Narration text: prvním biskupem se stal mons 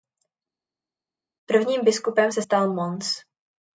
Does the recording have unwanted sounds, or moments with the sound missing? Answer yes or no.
no